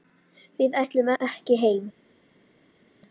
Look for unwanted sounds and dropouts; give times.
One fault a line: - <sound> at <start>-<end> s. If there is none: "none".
none